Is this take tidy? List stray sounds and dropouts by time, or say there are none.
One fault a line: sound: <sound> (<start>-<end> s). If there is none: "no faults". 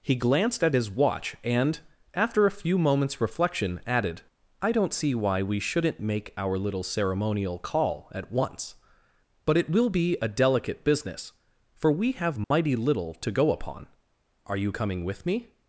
sound: dropout (12.4-12.5 s)